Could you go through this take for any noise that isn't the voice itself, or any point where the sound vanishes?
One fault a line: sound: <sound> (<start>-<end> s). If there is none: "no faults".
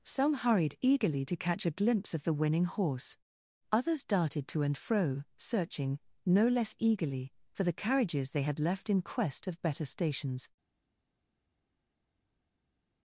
no faults